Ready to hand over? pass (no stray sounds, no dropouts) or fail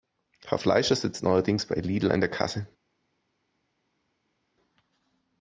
pass